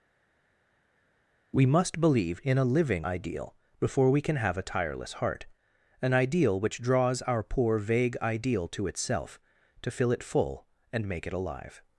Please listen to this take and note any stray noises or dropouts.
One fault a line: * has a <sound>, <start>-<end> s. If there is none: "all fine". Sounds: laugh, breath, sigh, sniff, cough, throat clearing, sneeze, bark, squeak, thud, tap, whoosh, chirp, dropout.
all fine